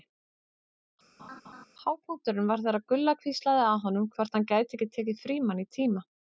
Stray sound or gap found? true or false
true